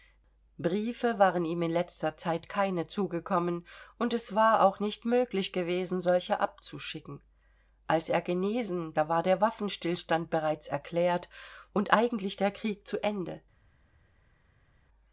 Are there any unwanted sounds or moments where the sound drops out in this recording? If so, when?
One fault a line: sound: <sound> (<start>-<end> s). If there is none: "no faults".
no faults